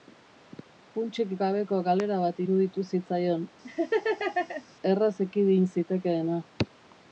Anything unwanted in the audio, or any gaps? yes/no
yes